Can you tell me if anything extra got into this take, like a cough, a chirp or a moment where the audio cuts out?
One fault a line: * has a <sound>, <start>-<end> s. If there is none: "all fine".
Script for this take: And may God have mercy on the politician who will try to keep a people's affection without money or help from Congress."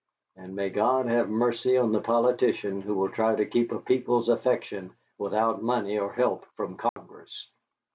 * has a dropout, 6.9-7.0 s